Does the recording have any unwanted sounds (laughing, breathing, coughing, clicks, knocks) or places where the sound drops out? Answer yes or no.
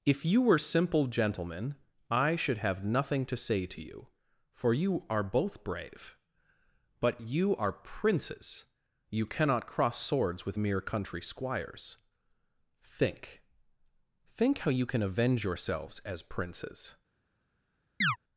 yes